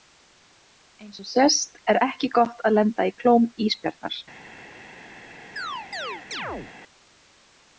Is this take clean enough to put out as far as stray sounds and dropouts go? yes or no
no